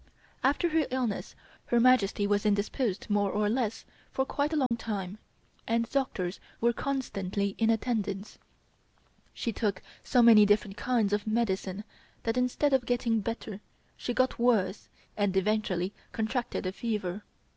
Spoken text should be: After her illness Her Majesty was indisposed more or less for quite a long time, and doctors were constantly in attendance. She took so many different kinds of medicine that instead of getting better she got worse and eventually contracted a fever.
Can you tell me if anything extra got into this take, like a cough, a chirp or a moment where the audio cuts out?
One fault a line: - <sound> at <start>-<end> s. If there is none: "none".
- dropout at 4.7-4.7 s